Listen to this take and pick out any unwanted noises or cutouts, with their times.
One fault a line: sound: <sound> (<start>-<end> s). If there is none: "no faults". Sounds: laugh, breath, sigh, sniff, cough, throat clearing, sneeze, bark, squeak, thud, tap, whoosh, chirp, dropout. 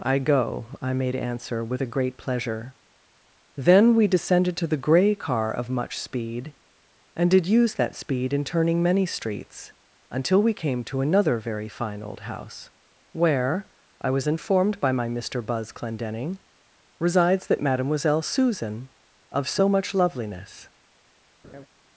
sound: laugh (21.4-21.7 s)